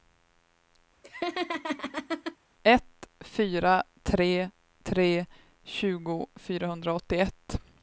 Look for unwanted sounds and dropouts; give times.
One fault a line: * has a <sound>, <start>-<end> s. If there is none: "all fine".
* has a laugh, 1.0-2.4 s